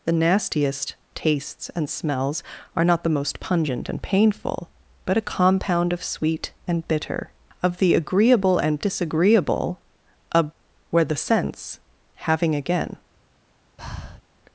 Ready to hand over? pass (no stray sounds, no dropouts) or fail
fail